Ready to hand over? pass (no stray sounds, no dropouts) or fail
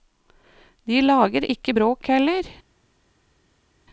pass